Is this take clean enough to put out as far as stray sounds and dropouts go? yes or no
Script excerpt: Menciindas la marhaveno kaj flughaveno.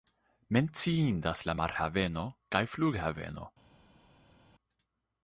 yes